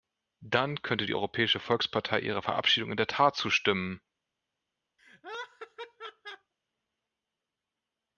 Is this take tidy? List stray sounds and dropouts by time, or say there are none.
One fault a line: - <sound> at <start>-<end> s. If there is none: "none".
- laugh at 5.0-6.5 s